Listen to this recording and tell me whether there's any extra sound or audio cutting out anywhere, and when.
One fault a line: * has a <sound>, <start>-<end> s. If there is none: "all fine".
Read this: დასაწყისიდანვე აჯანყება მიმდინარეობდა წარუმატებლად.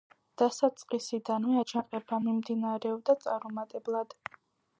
all fine